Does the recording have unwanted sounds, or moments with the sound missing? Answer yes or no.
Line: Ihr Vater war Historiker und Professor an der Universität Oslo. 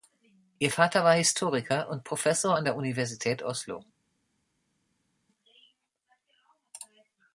no